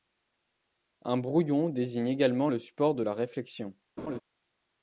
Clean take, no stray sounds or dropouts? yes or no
no